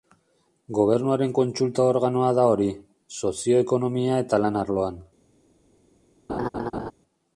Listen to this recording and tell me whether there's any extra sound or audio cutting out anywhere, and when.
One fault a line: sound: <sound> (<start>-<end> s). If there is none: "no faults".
sound: laugh (6.3-6.9 s)